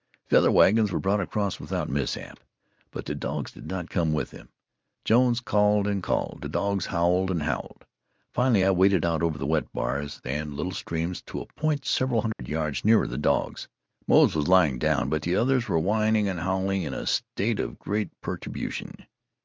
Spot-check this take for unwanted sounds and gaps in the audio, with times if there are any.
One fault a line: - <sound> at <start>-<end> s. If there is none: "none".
- dropout at 12.3-12.4 s